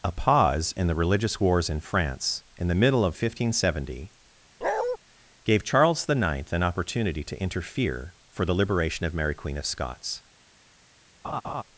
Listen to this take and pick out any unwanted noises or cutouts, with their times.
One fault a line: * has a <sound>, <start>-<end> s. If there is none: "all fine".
* has a bark, 4.6-5.0 s
* has a laugh, 11.2-11.6 s